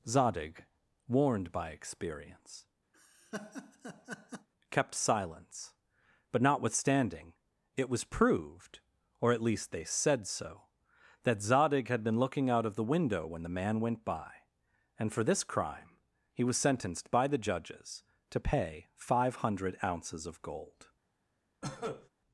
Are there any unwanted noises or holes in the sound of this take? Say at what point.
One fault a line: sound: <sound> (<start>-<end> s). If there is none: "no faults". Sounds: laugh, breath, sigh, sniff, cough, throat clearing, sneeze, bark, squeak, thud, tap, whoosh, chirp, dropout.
sound: laugh (2.9-4.5 s)
sound: cough (21.6-22.1 s)